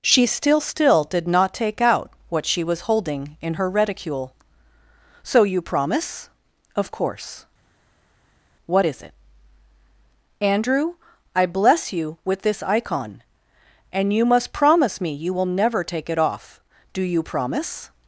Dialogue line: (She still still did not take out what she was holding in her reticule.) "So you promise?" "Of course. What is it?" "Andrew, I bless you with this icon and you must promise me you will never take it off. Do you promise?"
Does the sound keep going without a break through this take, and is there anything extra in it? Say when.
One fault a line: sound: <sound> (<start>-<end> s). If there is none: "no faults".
no faults